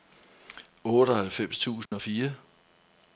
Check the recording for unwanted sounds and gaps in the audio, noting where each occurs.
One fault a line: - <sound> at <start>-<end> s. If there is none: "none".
- dropout at 1.9-1.9 s